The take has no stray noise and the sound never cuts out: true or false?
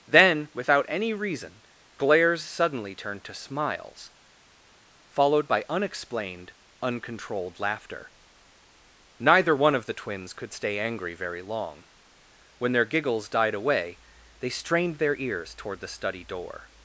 true